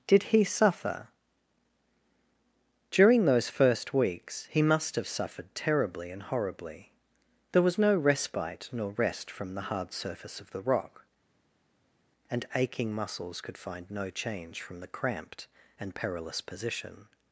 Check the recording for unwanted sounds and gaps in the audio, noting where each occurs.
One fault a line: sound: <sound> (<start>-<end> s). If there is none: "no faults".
no faults